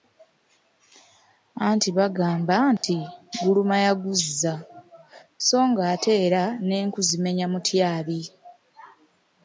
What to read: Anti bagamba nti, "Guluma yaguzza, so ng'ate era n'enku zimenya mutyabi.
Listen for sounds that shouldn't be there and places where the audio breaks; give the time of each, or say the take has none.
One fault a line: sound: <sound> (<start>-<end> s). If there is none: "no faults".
sound: dropout (2.8-2.8 s)